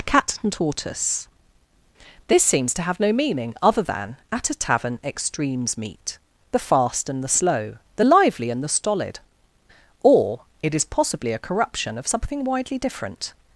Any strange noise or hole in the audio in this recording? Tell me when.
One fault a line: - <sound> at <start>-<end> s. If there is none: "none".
none